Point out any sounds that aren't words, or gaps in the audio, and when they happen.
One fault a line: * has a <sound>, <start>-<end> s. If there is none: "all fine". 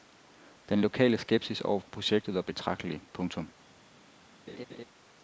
* has a laugh, 4.5-4.8 s